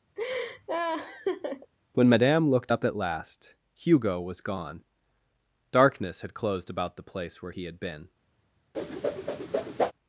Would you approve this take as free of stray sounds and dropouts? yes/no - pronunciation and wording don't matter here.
no